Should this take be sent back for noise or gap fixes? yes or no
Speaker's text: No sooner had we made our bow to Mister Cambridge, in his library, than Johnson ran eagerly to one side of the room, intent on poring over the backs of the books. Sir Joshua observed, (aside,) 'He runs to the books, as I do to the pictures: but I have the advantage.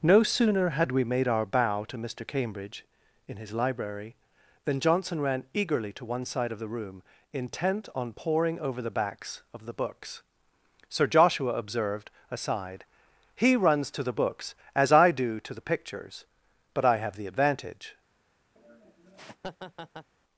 yes